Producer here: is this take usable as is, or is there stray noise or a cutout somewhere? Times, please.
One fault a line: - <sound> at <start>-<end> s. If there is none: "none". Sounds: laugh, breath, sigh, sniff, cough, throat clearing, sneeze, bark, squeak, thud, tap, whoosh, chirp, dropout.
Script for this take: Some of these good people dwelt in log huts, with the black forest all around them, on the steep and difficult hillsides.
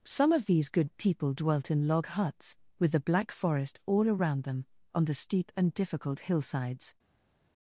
none